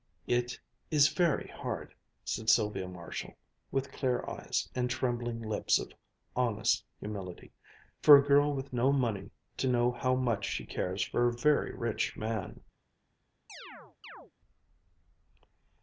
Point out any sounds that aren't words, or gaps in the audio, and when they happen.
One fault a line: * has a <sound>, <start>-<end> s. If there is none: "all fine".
* has a chirp, 13.5-14.3 s